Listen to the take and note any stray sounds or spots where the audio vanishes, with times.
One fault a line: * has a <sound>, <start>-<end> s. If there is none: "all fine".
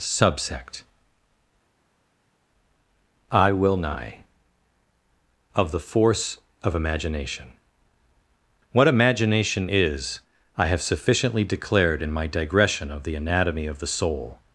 all fine